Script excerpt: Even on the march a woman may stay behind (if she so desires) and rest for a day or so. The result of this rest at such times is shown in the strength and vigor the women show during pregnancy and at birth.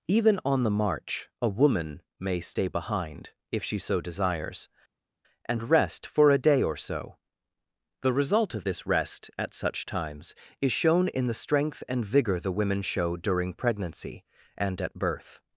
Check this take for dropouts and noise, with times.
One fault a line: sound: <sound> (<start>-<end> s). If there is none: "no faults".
no faults